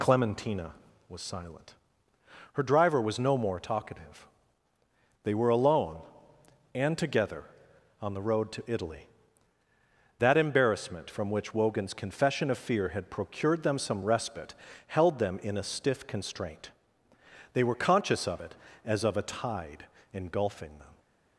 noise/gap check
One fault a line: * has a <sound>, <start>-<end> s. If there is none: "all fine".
all fine